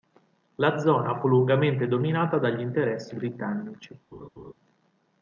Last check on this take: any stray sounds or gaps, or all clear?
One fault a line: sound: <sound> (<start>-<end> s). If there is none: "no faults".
sound: laugh (4.1-4.5 s)